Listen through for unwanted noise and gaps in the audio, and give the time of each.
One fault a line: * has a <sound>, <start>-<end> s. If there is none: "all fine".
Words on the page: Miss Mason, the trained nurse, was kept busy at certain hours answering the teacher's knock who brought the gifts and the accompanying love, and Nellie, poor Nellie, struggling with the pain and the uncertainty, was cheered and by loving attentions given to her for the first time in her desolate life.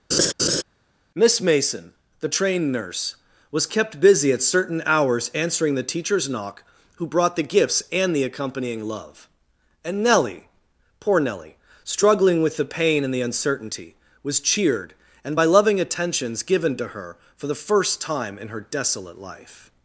* has a laugh, 0.1-0.6 s